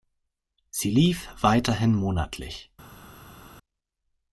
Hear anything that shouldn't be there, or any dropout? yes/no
no